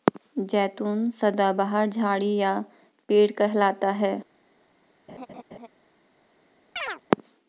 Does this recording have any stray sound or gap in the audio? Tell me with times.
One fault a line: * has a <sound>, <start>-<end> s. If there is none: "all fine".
* has a laugh, 5.1-5.7 s
* has a chirp, 6.8-7.0 s